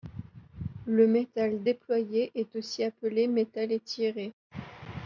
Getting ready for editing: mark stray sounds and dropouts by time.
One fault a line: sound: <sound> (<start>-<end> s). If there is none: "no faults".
no faults